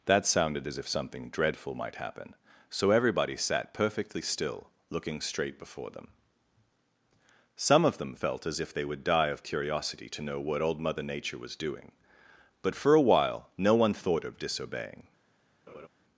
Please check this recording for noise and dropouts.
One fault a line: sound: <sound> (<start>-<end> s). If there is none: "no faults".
sound: laugh (15.7-15.9 s)